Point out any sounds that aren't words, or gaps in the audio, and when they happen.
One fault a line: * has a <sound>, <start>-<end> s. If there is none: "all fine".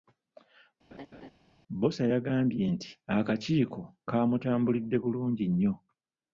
* has a laugh, 0.9-1.3 s